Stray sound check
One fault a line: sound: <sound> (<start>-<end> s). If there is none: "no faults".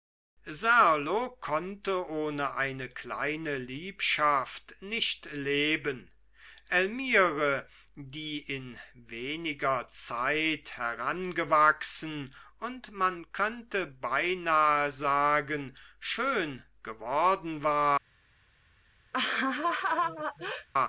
sound: laugh (19.1-20.7 s)